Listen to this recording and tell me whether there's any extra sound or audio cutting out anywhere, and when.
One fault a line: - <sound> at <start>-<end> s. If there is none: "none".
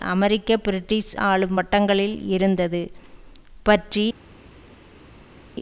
none